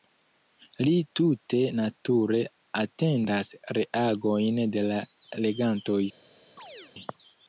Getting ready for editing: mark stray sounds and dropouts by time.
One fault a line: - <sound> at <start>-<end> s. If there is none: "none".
- chirp at 6.6-6.9 s